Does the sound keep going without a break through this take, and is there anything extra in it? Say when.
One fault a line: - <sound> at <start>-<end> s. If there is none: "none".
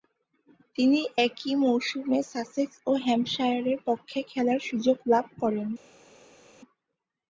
none